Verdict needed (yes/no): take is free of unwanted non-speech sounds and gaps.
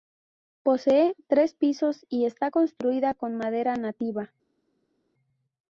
yes